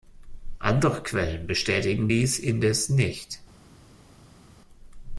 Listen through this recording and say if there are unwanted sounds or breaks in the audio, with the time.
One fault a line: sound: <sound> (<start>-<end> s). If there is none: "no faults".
no faults